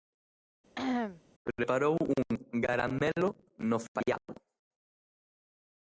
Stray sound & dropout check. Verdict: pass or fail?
fail